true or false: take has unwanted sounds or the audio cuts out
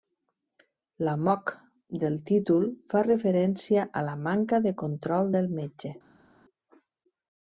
false